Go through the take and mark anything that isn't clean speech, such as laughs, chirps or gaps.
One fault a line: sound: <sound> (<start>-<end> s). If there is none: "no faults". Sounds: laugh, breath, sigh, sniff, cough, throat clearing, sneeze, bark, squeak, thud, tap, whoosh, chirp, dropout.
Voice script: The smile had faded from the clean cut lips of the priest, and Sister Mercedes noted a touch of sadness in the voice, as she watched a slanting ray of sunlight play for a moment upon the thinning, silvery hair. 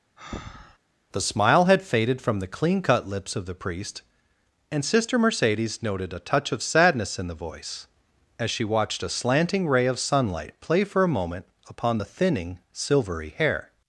sound: breath (0.2-0.8 s)